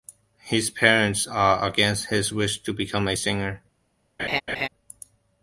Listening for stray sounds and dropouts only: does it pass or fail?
fail